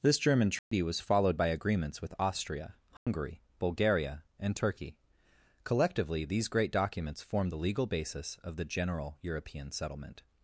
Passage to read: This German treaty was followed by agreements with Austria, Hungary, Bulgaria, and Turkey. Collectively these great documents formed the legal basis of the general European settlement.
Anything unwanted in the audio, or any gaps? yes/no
yes